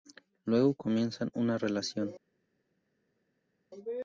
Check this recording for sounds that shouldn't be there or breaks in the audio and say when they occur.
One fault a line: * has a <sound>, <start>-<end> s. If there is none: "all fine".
all fine